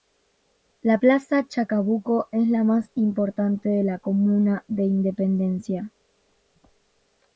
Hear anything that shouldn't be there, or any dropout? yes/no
no